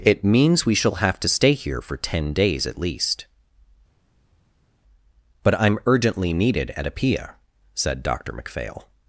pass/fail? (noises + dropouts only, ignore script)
pass